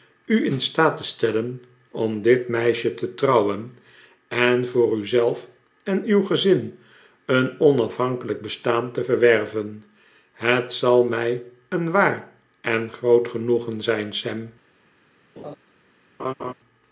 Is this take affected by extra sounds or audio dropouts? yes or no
yes